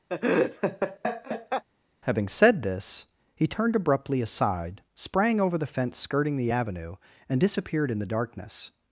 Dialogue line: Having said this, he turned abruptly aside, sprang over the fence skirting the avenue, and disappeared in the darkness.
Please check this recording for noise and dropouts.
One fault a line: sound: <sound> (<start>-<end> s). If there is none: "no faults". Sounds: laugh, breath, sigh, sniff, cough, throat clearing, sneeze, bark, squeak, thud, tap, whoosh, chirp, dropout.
sound: laugh (0.1-1.6 s)